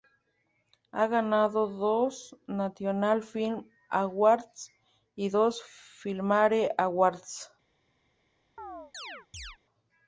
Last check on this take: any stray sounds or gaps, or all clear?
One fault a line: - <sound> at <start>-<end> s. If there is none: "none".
- chirp at 8.6-9.6 s